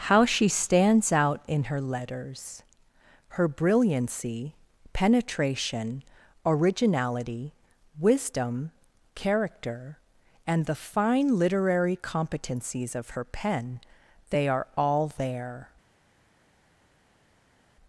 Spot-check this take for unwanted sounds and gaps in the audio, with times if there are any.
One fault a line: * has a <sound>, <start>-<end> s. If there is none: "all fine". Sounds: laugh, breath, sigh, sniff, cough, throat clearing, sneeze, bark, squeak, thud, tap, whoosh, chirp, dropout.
all fine